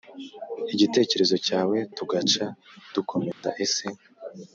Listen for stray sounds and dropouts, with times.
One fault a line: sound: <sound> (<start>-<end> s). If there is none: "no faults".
sound: dropout (3.3-3.4 s)